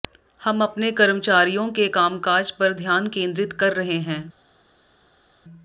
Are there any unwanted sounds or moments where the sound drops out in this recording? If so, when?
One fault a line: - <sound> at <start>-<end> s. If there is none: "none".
none